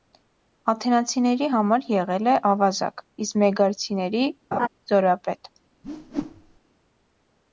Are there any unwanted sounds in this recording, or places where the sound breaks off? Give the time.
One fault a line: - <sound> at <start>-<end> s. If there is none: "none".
- laugh at 4.5-4.7 s
- whoosh at 5.8-6.6 s